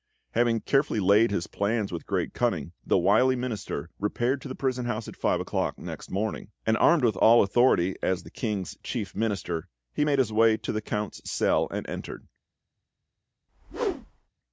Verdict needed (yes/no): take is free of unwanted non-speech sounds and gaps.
no